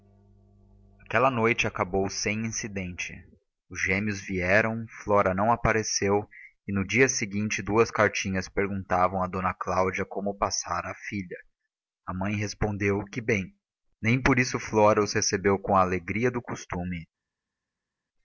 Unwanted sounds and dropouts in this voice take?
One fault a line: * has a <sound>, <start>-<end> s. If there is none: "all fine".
all fine